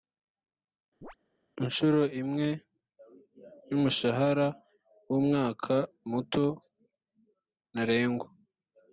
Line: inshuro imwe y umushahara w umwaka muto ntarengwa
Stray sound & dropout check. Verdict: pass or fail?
fail